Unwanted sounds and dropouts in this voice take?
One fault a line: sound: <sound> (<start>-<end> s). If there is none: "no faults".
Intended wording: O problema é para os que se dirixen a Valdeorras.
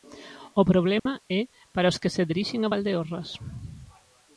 sound: dropout (1.0-1.1 s)